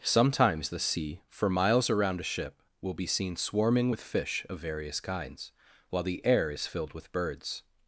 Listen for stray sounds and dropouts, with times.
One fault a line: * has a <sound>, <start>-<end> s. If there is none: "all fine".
all fine